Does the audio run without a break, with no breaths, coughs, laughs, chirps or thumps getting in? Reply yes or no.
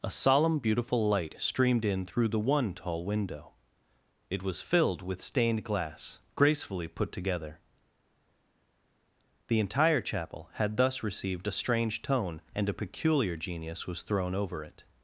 yes